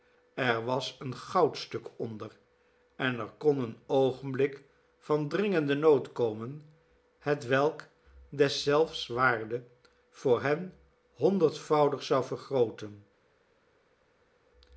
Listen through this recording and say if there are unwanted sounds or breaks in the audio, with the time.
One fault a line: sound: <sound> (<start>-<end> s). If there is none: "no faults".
no faults